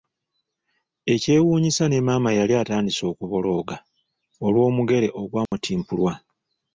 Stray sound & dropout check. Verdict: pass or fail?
fail